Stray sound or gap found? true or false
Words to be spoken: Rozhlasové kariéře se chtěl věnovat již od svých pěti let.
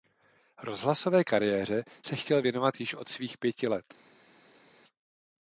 false